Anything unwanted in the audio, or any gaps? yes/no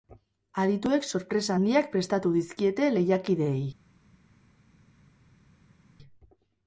no